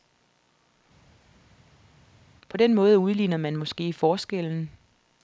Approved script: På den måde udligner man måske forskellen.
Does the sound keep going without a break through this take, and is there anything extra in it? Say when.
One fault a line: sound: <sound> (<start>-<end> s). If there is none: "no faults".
no faults